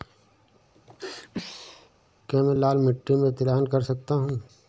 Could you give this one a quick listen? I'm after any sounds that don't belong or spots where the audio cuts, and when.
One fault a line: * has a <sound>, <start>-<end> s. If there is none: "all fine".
* has a sneeze, 0.7-1.9 s